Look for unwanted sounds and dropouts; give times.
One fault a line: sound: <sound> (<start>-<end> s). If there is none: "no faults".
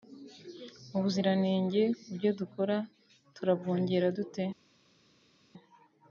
no faults